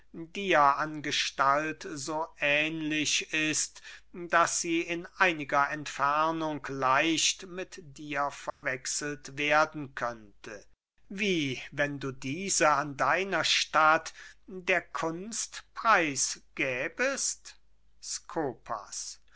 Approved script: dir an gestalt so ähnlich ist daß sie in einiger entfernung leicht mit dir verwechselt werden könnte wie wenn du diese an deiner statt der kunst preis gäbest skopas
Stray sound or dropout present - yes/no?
yes